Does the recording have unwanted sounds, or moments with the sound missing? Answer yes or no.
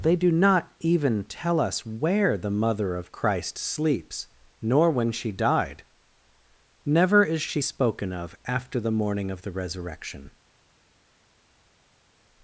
no